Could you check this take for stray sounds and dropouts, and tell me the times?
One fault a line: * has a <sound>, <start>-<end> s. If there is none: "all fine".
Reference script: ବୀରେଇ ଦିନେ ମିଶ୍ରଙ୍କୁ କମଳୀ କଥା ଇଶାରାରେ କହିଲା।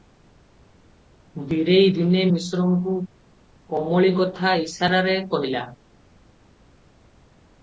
all fine